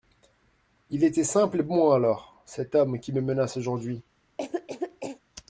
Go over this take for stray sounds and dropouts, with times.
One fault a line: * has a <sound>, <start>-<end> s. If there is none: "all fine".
* has a cough, 4.4-5.2 s